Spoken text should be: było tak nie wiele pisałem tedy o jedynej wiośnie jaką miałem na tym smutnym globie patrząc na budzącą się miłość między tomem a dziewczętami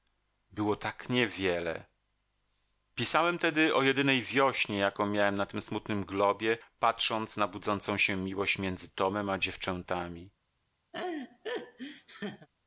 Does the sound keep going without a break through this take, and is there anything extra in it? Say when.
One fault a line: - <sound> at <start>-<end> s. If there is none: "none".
- laugh at 10.9-12.5 s